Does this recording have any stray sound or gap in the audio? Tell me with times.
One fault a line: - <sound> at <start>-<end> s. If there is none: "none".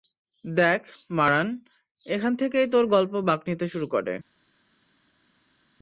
none